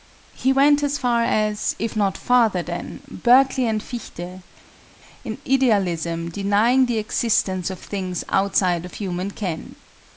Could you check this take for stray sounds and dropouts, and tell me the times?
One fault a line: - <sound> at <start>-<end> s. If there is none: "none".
none